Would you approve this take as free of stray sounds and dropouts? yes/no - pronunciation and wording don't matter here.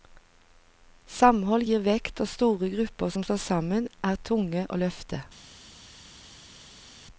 yes